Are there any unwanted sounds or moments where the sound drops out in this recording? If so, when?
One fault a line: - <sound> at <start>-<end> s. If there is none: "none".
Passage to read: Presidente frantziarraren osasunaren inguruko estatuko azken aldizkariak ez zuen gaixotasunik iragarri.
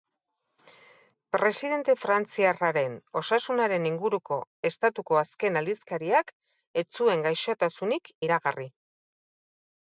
none